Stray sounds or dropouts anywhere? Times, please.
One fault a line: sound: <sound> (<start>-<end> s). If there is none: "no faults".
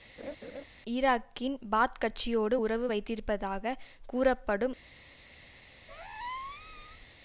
sound: laugh (0.2-0.6 s)
sound: squeak (5.9-7.1 s)